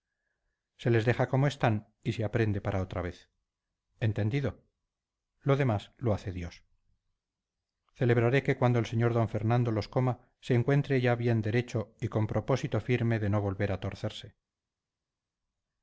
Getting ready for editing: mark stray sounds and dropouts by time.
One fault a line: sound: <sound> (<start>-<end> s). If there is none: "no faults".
no faults